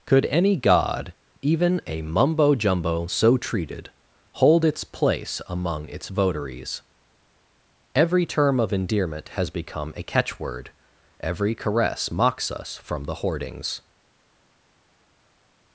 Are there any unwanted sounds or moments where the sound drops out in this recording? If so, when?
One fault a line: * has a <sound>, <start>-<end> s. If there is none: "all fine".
all fine